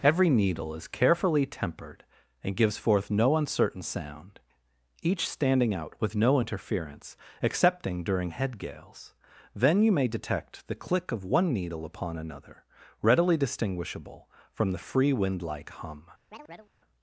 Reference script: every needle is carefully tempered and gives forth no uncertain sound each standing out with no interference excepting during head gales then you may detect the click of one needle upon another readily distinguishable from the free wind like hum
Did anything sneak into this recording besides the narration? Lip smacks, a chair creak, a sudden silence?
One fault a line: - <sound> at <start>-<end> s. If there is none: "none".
- chirp at 16.3-16.7 s